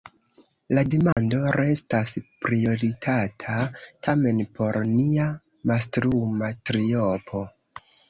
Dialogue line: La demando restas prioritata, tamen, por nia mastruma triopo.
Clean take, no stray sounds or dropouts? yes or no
no